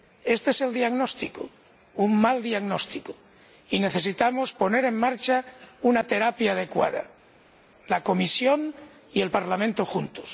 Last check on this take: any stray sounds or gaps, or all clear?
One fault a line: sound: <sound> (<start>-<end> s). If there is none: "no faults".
no faults